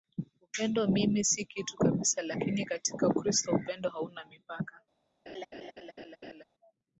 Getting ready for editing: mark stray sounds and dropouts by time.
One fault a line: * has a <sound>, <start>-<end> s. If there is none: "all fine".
* has a laugh, 5.3-6.4 s